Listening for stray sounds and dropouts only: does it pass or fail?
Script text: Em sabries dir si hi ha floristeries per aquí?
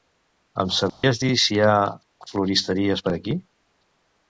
fail